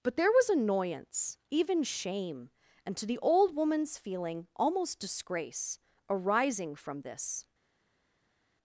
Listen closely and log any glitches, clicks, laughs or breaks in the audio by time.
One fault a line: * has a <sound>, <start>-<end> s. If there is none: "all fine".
all fine